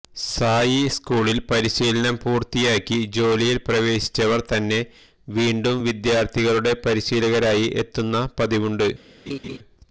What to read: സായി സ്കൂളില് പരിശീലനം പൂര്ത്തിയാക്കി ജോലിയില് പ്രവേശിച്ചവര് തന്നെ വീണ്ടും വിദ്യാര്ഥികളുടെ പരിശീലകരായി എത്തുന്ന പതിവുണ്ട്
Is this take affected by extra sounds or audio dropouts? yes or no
yes